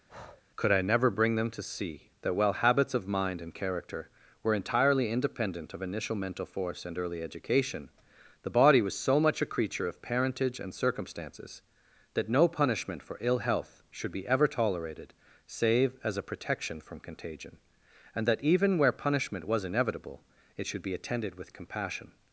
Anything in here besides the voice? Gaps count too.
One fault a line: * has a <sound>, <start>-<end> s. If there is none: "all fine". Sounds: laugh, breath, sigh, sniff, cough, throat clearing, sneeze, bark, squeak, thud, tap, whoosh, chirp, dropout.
* has a breath, 0.1-0.4 s